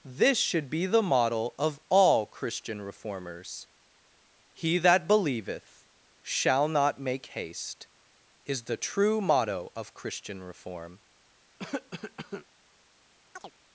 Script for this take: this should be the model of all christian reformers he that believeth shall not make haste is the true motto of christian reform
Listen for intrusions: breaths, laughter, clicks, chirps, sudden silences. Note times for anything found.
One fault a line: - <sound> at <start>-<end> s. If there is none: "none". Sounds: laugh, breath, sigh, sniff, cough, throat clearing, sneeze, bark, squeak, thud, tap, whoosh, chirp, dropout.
- cough at 11.6-12.5 s
- chirp at 13.4-13.5 s